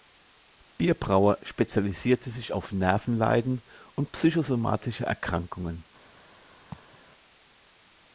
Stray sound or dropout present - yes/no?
yes